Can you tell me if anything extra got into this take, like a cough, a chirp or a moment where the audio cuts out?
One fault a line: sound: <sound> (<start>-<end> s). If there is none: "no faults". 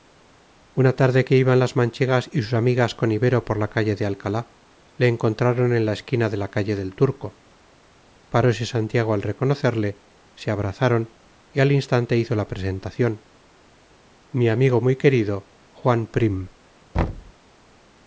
sound: thud (16.9-17.3 s)